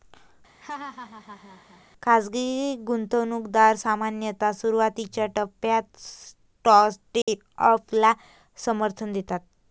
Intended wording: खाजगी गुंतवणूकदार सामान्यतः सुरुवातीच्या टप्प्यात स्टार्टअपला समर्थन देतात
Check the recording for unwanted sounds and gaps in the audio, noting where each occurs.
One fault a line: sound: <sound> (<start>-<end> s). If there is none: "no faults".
sound: laugh (0.6-1.8 s)
sound: dropout (7.2-7.3 s)